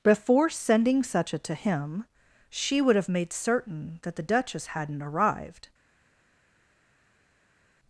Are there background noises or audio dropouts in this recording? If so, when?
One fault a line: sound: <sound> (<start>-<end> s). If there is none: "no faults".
no faults